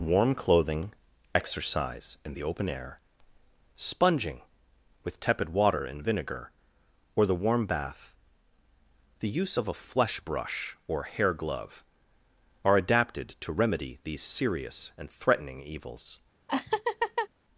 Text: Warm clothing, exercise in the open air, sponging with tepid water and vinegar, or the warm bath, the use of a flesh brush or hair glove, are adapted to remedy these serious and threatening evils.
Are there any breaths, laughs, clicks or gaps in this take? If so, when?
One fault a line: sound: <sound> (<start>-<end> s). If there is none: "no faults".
sound: laugh (16.5-17.3 s)